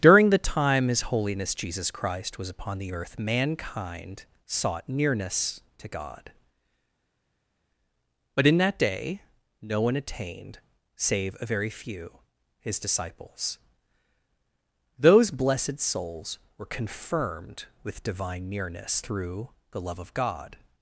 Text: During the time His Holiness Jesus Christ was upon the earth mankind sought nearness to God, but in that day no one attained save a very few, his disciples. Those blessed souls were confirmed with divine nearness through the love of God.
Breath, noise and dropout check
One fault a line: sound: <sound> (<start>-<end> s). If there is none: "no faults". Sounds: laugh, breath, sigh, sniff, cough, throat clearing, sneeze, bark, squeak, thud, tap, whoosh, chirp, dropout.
no faults